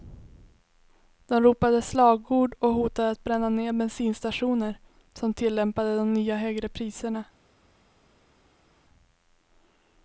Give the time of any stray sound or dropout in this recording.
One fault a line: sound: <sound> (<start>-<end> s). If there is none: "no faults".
no faults